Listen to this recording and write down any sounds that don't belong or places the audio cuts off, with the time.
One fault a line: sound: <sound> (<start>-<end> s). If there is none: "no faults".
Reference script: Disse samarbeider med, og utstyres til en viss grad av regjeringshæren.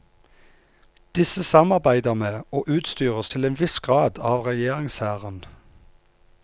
no faults